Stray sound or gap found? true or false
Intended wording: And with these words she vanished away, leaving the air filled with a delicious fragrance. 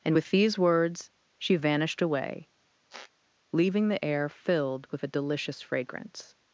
true